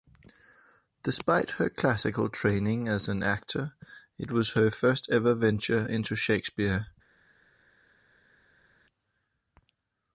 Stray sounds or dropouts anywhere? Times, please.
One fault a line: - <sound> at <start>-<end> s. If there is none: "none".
none